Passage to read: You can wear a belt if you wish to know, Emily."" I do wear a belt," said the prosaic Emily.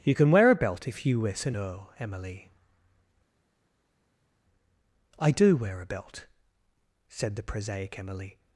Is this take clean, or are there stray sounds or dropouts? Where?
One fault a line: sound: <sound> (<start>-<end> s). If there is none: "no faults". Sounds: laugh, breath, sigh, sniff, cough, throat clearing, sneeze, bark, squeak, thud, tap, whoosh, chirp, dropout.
no faults